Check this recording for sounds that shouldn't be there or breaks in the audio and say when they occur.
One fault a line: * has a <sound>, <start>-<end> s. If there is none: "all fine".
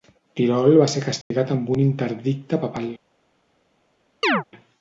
* has a dropout, 1.2-1.3 s
* has a chirp, 4.2-4.4 s